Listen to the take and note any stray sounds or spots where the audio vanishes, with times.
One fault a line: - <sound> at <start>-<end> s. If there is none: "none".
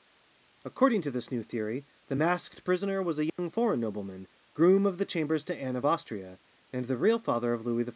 - dropout at 3.3-3.4 s